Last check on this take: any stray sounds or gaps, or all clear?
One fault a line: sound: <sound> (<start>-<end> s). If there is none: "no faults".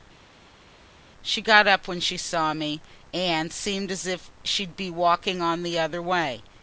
no faults